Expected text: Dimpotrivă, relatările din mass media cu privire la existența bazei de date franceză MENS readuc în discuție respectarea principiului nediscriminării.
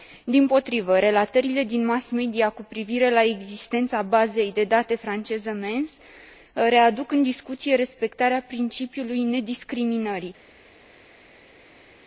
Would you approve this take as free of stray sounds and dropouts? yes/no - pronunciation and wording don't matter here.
yes